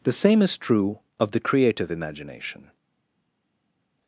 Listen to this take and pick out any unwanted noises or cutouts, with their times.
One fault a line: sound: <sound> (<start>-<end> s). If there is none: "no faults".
no faults